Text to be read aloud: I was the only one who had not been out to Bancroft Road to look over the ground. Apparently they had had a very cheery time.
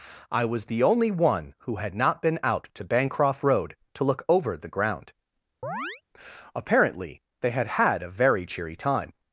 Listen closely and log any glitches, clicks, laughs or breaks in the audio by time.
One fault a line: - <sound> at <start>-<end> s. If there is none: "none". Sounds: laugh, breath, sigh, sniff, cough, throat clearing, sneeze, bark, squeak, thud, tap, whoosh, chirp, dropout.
- chirp at 5.6-6.0 s